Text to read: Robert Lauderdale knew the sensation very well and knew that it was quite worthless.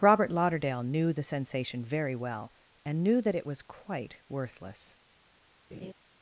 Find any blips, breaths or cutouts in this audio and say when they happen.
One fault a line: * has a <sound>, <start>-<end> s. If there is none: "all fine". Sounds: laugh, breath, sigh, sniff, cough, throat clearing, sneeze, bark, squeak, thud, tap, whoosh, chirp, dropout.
* has a laugh, 5.7-5.9 s